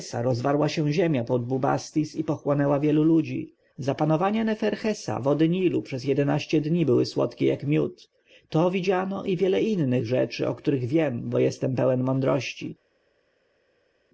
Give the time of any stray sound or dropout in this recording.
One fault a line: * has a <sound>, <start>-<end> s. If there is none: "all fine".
all fine